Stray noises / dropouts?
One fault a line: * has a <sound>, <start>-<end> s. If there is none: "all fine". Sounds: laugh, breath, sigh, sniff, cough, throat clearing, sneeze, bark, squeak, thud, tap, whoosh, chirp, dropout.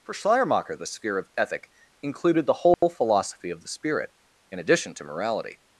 * has a dropout, 2.7-2.8 s